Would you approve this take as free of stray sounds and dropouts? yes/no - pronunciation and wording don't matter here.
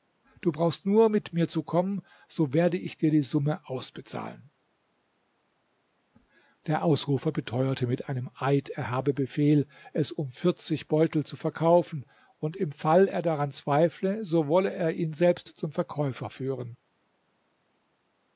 yes